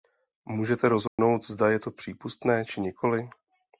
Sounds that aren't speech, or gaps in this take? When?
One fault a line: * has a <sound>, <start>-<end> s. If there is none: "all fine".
* has a dropout, 1.1-1.2 s